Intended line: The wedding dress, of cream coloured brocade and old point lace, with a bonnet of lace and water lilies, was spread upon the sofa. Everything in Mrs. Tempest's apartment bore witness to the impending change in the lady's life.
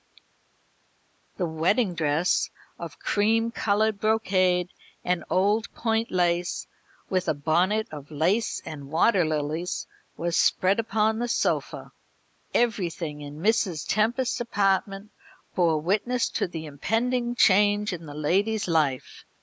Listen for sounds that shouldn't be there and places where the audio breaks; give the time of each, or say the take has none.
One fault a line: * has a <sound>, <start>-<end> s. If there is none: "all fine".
all fine